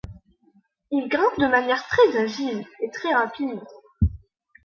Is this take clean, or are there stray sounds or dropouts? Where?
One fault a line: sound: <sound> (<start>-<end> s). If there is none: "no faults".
no faults